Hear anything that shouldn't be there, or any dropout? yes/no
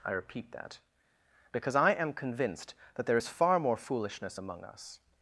no